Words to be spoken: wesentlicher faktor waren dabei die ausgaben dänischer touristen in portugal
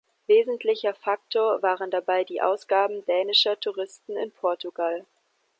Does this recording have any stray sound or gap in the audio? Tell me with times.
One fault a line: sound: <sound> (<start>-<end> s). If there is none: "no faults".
no faults